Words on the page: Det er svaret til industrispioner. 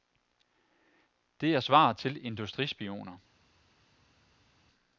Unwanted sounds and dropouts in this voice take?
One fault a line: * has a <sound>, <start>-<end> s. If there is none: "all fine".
all fine